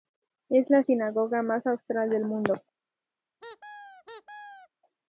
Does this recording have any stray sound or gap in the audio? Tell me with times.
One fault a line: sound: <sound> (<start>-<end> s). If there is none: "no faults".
sound: squeak (3.4-4.7 s)